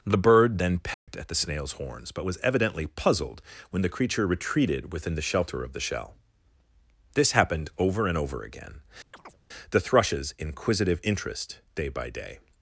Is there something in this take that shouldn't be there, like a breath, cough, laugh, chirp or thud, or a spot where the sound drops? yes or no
yes